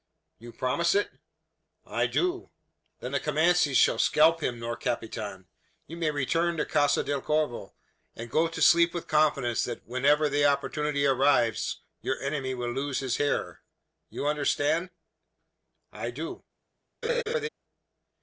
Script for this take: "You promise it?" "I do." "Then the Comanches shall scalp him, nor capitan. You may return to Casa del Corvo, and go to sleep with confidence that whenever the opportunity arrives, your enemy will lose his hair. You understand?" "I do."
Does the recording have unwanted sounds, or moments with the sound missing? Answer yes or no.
yes